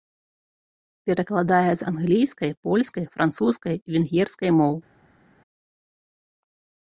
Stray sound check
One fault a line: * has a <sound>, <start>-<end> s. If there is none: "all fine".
all fine